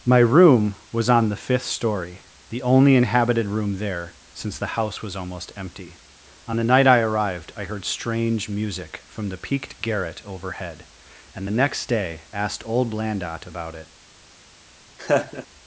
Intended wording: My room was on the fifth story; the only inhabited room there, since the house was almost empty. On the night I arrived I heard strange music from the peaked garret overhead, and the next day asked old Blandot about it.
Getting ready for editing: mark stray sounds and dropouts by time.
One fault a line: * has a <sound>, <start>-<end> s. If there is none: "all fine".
* has a laugh, 15.0-15.5 s